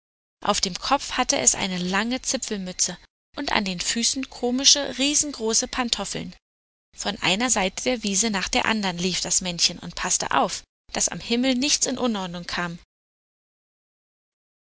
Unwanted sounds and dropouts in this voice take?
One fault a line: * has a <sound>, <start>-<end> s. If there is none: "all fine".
all fine